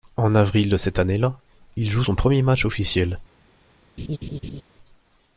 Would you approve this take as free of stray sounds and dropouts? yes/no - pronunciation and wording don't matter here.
no